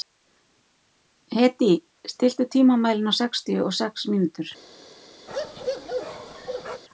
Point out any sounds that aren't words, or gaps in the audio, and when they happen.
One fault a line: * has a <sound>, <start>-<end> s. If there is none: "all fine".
* has a bark, 5.3-6.8 s